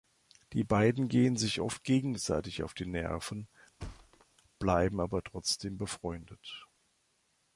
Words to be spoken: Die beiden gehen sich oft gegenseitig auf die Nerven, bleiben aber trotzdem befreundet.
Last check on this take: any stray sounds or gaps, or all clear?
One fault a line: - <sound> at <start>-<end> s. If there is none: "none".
- thud at 3.8-4.3 s